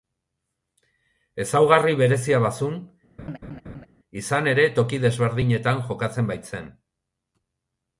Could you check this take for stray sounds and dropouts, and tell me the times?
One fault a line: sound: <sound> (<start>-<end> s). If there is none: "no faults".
sound: laugh (3.2-3.9 s)